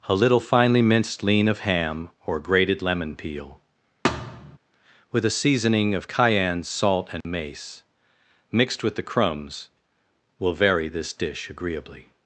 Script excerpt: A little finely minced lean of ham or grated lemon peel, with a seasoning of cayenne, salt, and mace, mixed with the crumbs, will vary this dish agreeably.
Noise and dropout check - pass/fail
fail